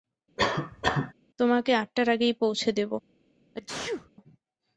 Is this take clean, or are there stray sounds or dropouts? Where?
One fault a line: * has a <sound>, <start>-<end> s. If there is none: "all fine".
* has a cough, 0.4-1.1 s
* has a sneeze, 3.5-4.1 s